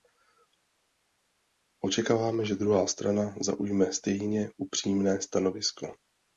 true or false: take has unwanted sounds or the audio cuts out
false